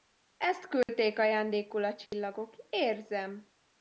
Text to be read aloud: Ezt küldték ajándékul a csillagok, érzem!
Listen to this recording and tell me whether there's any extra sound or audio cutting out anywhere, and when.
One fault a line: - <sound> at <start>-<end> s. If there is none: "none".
- dropout at 0.8-0.9 s
- dropout at 2.1-2.1 s